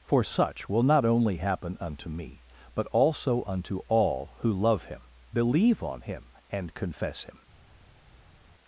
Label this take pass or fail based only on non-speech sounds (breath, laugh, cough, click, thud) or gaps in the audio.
pass